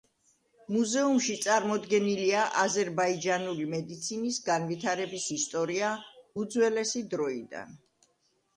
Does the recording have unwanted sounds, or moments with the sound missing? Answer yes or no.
no